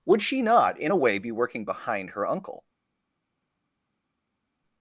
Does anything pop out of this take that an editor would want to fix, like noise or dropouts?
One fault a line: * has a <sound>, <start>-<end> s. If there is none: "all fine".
all fine